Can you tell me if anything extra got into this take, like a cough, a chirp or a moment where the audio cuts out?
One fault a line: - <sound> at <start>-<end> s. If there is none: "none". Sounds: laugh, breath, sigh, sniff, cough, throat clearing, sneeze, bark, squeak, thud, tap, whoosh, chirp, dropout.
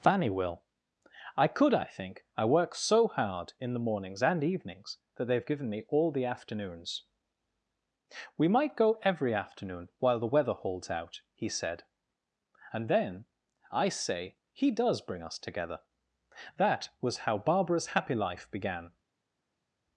none